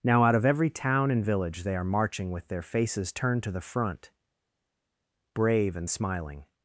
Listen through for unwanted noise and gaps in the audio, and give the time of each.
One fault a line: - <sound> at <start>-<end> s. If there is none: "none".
none